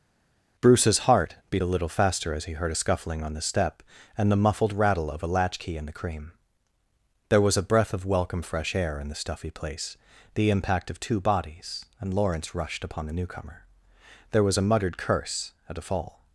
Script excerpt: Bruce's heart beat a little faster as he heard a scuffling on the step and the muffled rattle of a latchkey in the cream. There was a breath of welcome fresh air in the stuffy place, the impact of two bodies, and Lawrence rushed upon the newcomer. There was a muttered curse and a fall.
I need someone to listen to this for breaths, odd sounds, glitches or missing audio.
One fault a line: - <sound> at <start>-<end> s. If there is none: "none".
none